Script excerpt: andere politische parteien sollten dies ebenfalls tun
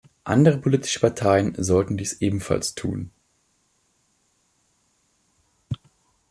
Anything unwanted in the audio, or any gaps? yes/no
no